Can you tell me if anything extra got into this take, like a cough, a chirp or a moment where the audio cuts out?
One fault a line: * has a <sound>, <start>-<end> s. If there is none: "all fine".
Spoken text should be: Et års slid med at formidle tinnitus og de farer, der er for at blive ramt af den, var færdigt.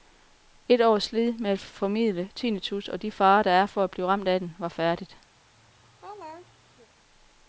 * has a laugh, 5.3-6.9 s